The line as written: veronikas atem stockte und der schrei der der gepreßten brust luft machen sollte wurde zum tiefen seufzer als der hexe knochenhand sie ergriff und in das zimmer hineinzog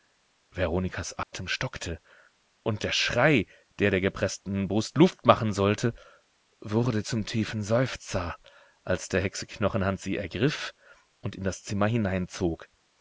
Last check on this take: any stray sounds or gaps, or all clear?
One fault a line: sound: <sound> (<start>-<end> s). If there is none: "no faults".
sound: dropout (1.2-1.3 s)